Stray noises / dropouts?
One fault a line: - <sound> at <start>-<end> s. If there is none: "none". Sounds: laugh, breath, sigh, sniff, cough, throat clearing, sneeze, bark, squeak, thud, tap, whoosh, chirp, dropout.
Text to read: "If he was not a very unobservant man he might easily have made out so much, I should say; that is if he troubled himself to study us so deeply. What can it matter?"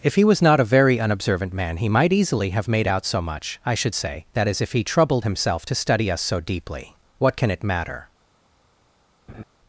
- laugh at 9.3-9.4 s